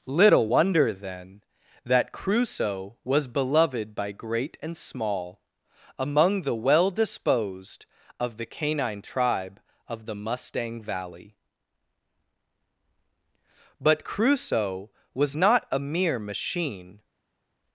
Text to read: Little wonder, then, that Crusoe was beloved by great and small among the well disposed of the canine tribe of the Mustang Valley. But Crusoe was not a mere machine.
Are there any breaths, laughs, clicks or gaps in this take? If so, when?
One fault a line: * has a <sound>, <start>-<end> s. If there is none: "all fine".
all fine